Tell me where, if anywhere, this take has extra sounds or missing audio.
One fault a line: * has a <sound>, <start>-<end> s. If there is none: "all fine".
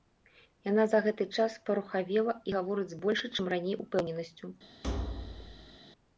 * has a thud, 4.8-5.8 s